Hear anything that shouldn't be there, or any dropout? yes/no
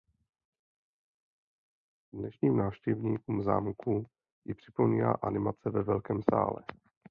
no